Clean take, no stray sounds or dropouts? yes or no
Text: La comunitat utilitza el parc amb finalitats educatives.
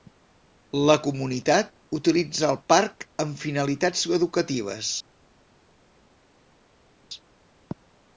yes